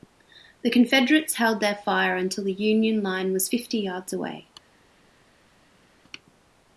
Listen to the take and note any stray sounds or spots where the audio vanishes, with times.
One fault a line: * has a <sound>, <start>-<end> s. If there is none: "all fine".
all fine